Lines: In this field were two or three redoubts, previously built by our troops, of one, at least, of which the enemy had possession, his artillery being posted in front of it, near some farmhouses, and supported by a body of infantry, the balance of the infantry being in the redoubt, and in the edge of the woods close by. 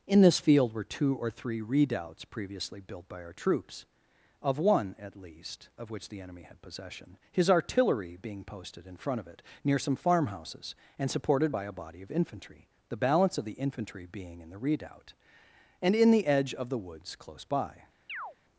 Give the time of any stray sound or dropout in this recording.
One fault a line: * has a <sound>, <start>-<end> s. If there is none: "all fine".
* has a chirp, 18.1-18.4 s